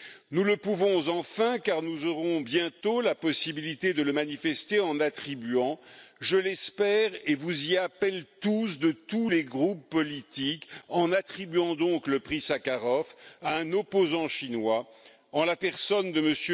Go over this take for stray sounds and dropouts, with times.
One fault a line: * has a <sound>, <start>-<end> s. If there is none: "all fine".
all fine